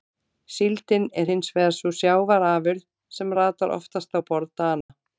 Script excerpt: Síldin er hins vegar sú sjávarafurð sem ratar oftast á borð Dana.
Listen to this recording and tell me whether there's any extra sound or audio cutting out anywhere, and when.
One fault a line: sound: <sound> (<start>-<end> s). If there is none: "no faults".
sound: dropout (4.8-4.9 s)